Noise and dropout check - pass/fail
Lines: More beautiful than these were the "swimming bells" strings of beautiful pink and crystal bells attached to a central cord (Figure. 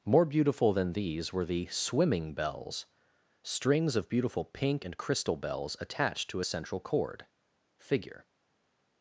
pass